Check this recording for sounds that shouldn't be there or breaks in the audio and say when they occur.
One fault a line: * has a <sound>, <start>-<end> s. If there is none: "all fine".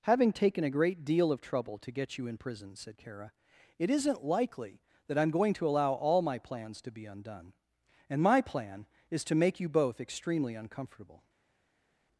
all fine